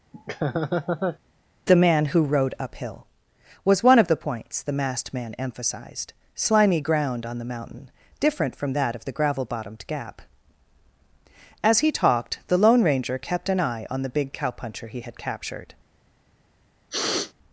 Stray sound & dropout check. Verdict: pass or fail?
fail